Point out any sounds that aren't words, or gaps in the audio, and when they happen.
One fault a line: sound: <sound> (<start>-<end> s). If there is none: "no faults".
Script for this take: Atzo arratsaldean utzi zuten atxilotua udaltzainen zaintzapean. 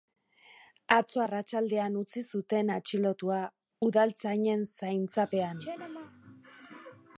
no faults